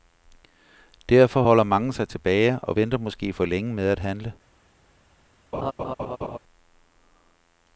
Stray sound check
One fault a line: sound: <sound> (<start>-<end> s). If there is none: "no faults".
sound: laugh (5.5-6.4 s)